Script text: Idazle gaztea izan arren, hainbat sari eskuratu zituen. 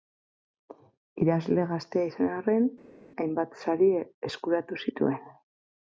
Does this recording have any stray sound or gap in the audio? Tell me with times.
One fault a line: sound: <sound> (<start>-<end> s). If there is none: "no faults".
no faults